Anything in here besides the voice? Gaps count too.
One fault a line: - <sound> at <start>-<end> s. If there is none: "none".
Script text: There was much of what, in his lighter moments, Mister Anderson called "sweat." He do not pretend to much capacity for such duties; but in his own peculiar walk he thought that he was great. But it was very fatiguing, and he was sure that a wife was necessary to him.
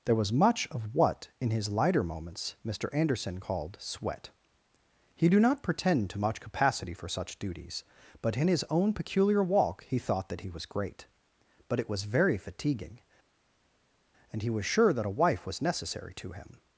none